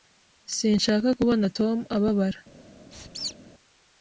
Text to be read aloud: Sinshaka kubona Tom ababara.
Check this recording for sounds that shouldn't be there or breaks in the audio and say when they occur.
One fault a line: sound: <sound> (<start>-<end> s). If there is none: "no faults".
sound: squeak (2.9-3.4 s)